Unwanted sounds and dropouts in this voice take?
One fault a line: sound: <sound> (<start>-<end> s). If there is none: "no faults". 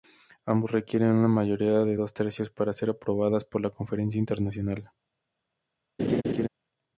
sound: laugh (6.0-6.5 s)